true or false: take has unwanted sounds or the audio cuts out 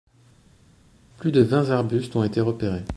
false